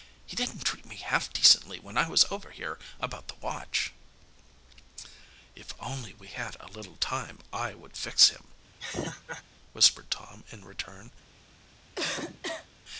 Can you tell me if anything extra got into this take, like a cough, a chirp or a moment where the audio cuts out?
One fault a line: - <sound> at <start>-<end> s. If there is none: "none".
- laugh at 8.8-9.4 s
- cough at 12.0-12.7 s